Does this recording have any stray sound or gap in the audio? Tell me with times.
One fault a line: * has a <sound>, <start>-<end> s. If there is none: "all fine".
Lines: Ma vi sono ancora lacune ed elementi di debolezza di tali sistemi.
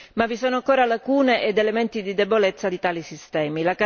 all fine